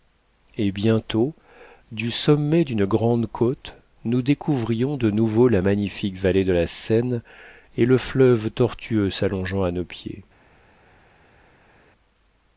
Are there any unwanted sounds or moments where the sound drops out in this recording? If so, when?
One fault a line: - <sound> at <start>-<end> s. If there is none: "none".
none